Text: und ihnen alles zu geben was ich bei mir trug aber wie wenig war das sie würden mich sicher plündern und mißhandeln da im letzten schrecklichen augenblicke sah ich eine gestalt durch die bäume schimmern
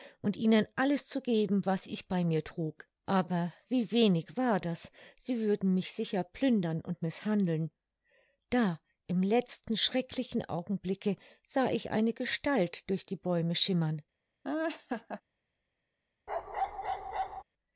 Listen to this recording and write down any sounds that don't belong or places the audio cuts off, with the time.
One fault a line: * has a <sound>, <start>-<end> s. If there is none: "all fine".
* has a laugh, 14.4-15.2 s
* has a bark, 16.3-17.4 s